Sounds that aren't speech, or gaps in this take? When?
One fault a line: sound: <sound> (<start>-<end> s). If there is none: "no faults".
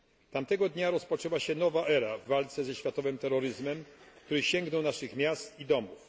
no faults